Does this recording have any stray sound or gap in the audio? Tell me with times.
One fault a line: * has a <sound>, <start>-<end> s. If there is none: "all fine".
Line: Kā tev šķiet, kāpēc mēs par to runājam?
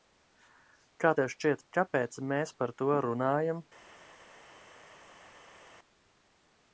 all fine